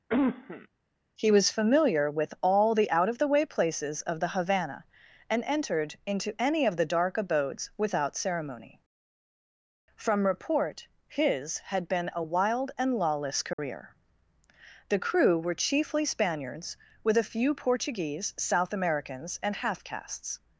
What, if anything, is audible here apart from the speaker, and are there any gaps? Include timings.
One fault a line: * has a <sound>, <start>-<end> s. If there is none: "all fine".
* has a cough, 0.1-0.7 s
* has a dropout, 13.5-13.6 s